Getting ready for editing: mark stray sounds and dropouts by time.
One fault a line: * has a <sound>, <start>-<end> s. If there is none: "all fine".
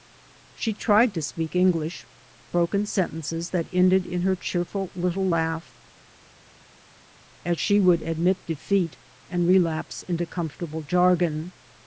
all fine